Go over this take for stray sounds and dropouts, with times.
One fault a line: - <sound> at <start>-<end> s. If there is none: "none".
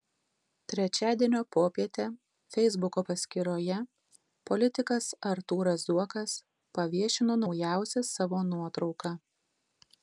none